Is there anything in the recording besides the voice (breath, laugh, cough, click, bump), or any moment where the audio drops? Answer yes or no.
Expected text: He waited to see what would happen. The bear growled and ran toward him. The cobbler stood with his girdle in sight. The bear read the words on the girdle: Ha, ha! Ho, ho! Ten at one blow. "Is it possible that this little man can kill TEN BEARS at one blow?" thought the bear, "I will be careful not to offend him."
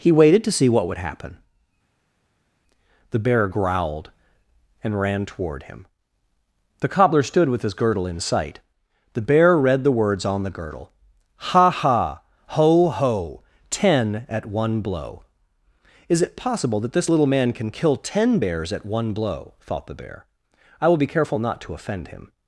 no